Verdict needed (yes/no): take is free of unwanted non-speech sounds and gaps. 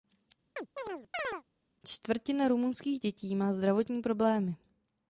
no